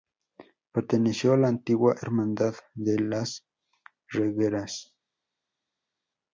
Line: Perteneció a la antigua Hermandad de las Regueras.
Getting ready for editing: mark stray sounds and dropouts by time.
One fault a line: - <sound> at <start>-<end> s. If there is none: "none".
none